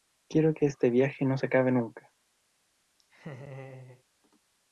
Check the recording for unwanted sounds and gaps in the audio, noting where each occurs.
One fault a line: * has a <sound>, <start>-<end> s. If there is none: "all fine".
* has a laugh, 3.0-4.0 s